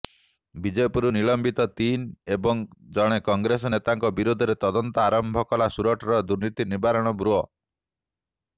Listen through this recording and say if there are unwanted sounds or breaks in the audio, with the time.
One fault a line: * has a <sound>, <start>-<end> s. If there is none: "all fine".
all fine